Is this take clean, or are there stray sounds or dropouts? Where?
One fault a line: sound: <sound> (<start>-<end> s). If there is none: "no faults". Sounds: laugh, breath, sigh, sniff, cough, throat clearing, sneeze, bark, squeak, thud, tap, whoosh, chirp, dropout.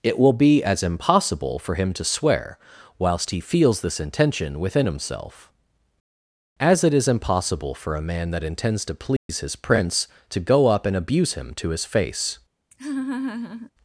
sound: dropout (9.2-9.3 s)
sound: laugh (12.7-13.7 s)